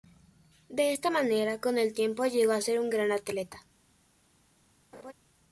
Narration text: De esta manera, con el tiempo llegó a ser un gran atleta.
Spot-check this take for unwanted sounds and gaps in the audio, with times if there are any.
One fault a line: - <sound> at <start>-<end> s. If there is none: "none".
- laugh at 4.9-5.1 s